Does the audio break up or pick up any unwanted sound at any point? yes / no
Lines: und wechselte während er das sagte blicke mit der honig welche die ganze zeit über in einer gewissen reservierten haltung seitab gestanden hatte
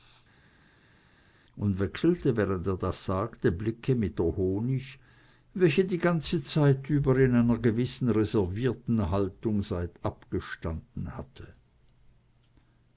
no